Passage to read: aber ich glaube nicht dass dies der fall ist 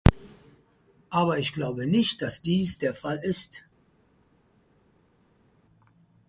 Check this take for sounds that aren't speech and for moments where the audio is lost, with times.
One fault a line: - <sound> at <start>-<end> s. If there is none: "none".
none